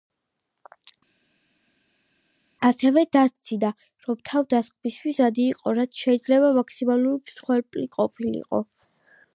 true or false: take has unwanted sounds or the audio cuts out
false